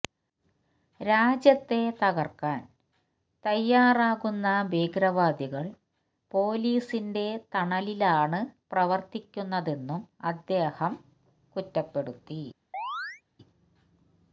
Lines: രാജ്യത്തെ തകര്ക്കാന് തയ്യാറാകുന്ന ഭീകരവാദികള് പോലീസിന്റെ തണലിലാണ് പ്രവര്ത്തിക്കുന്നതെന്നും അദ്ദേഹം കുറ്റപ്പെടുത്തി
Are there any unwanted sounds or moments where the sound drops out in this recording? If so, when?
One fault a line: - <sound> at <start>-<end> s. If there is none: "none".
- chirp at 12.7-13.2 s